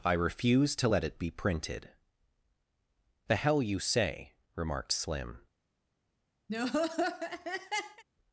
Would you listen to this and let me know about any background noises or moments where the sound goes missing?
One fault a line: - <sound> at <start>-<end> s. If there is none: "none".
- laugh at 6.5-8.0 s